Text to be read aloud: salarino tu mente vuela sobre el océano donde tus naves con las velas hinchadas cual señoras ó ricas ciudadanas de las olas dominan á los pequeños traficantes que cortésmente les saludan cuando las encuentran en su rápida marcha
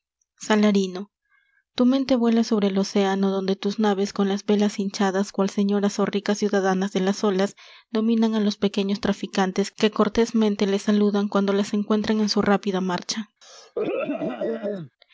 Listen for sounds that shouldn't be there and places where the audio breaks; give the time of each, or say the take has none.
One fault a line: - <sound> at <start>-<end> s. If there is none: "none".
- throat clearing at 13.4-14.9 s